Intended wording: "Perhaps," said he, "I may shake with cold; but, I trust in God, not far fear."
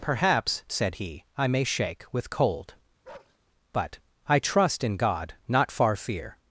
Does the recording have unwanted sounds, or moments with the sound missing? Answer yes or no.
yes